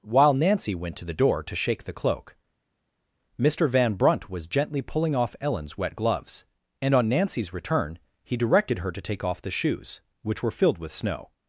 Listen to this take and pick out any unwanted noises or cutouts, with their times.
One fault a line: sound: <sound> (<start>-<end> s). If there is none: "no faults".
no faults